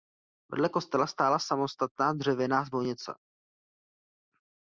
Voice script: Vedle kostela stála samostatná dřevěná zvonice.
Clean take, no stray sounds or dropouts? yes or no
yes